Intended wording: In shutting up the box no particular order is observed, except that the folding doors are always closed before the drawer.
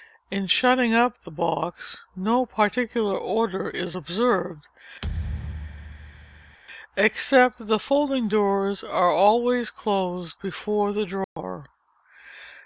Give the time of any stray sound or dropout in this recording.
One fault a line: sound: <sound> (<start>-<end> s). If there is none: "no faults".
sound: thud (5.0-6.6 s)
sound: dropout (11.2-11.4 s)